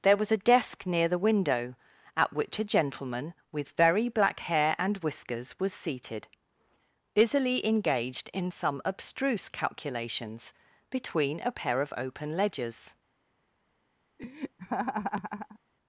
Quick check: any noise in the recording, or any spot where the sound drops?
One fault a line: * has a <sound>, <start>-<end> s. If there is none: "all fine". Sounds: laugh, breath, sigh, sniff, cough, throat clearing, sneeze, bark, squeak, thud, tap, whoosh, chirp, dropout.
* has a laugh, 14.2-15.6 s